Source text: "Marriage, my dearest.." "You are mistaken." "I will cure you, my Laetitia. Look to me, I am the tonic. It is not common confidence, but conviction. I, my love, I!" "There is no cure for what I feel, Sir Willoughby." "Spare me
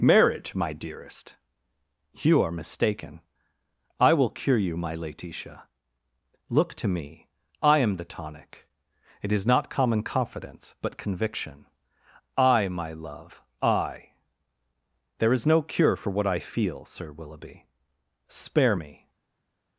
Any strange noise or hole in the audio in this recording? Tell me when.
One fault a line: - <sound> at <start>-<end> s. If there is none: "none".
none